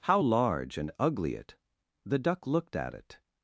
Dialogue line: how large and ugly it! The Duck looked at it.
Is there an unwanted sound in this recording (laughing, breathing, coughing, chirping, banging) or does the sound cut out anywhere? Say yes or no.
no